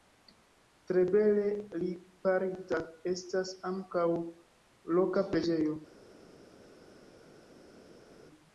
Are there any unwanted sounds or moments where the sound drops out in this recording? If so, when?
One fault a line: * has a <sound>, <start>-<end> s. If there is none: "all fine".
all fine